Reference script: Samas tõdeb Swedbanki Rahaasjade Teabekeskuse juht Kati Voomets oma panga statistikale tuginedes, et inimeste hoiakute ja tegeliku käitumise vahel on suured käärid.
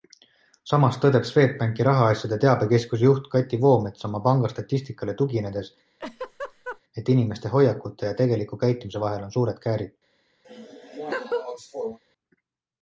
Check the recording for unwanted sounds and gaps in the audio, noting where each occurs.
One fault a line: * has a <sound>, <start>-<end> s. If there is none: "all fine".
* has a laugh, 6.0-6.8 s
* has a laugh, 10.4-12.0 s